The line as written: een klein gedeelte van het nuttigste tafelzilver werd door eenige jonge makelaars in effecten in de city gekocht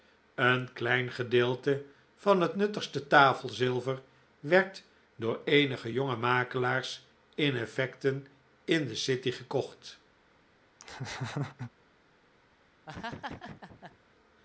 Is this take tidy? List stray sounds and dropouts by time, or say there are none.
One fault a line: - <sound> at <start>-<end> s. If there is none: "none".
- laugh at 10.8-11.7 s
- laugh at 12.9-14.0 s